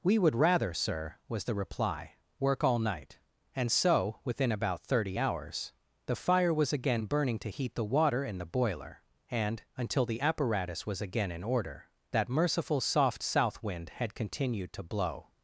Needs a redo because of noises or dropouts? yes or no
no